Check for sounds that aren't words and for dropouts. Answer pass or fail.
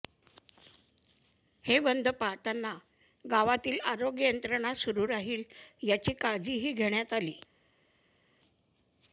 pass